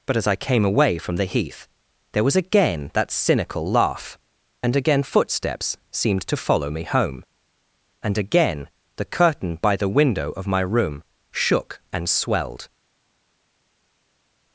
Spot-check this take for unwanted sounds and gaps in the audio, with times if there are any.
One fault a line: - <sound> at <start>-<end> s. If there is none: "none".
none